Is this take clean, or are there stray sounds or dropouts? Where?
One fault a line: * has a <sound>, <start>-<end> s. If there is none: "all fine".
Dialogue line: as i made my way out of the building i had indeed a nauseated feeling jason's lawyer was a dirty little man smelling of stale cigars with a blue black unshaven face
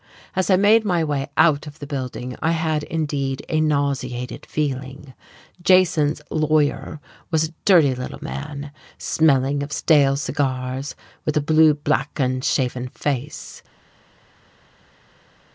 all fine